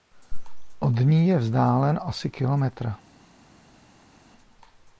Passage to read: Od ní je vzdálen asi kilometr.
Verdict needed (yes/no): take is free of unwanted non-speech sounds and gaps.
yes